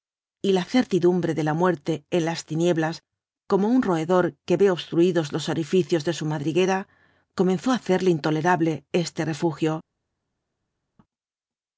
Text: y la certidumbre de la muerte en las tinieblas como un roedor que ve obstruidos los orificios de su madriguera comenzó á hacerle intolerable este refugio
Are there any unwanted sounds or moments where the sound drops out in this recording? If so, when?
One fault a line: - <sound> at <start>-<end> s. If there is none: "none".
none